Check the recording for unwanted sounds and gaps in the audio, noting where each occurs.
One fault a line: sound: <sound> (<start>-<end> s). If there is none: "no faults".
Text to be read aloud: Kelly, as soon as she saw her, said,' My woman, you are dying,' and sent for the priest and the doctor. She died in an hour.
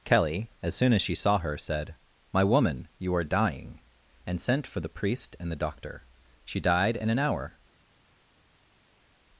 no faults